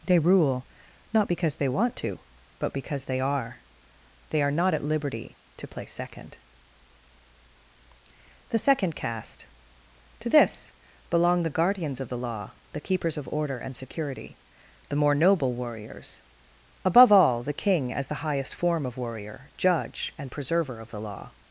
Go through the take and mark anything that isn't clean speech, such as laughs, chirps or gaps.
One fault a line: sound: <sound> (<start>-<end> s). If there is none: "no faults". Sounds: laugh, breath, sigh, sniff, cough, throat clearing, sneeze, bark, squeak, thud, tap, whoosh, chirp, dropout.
no faults